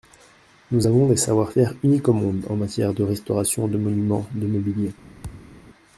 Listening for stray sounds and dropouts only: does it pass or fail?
fail